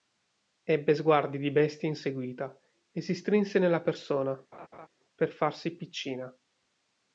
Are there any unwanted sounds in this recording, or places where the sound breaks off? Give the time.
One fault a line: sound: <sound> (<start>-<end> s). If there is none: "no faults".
sound: laugh (4.5-4.9 s)